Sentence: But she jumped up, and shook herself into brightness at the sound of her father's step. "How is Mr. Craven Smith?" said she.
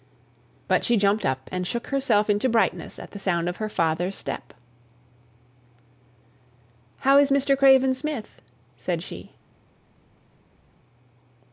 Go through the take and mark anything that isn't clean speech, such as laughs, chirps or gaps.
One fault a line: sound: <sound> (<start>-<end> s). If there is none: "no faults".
no faults